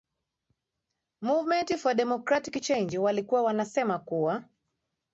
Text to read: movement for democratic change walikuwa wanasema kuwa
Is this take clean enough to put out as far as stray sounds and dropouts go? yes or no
yes